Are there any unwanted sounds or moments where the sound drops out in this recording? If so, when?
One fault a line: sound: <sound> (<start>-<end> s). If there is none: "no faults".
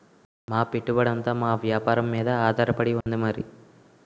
sound: dropout (3.0-3.1 s)